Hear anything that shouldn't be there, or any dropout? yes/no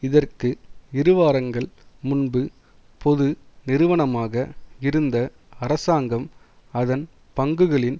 no